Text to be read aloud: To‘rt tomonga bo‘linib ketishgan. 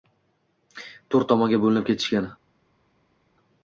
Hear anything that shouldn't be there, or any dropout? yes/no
no